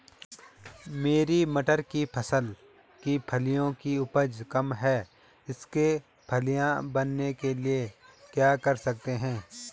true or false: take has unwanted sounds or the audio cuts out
false